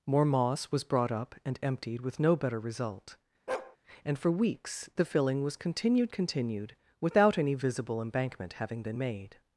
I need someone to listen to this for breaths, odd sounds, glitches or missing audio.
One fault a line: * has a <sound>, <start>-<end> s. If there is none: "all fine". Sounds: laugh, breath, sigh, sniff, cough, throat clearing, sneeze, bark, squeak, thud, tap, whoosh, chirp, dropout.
* has a bark, 3.5-3.8 s